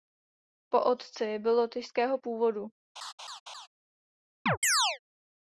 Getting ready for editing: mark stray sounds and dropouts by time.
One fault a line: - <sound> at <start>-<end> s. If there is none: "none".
- laugh at 3.0-3.7 s
- chirp at 4.5-5.0 s